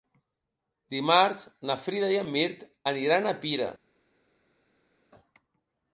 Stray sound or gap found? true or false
false